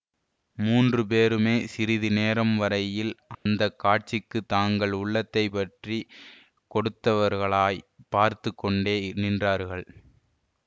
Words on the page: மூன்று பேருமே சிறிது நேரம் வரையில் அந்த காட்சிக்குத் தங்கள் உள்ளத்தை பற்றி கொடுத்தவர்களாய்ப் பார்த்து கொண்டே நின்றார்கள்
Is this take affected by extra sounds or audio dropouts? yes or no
yes